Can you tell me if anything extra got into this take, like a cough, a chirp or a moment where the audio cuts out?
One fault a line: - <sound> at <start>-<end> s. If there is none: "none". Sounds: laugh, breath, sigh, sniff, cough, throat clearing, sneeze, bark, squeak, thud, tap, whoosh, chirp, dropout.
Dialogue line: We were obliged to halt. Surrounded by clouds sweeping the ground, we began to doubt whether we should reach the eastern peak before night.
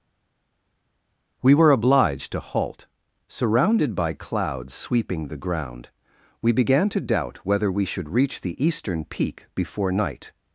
none